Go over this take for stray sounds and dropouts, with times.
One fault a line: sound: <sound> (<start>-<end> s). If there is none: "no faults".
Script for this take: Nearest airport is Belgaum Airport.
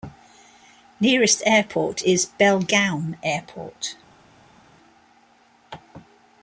no faults